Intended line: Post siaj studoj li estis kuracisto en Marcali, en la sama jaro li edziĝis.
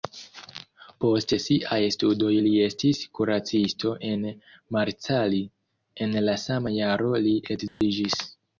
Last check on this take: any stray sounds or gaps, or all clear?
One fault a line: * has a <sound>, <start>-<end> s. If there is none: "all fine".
* has a dropout, 7.7-7.8 s